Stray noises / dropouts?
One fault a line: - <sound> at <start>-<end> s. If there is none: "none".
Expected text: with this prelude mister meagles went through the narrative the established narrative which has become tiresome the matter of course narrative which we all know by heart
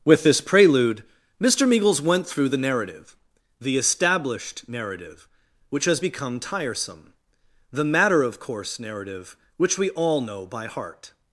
none